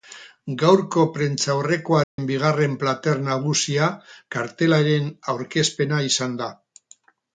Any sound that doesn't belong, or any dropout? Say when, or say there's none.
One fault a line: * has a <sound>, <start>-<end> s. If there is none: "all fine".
* has a dropout, 2.0-2.2 s